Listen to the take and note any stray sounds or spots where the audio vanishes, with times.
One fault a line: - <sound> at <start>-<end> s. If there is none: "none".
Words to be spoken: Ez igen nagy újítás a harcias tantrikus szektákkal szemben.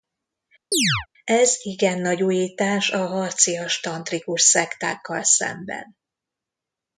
- chirp at 0.7-1.1 s